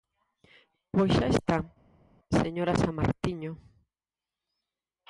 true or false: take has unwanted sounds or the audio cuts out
false